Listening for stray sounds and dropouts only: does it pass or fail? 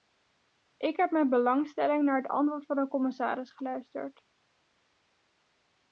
pass